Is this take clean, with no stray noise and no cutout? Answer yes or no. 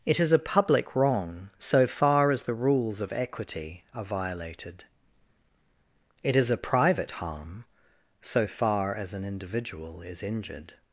yes